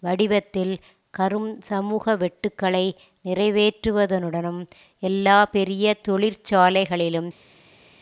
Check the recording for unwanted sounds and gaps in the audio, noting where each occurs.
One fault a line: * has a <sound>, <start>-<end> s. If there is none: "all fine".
all fine